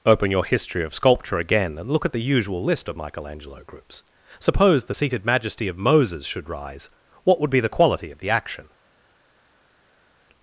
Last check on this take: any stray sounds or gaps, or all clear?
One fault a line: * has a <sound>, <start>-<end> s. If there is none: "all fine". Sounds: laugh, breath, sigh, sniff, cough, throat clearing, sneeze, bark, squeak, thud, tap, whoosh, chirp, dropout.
all fine